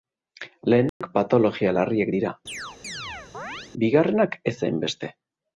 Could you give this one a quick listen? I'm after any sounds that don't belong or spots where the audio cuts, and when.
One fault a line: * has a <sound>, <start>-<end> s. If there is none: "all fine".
* has a dropout, 0.9-1.0 s
* has a chirp, 2.5-3.7 s